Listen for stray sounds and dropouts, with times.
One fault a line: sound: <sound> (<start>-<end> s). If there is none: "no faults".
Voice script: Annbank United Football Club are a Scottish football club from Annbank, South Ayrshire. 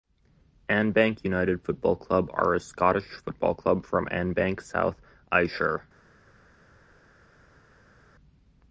no faults